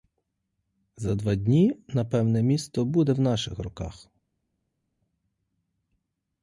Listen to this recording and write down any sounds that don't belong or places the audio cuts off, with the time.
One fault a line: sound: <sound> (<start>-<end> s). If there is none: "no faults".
no faults